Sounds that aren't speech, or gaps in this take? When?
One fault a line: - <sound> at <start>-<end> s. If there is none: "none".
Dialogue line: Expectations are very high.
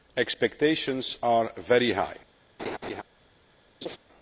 - laugh at 2.6-3.0 s
- laugh at 3.8-4.0 s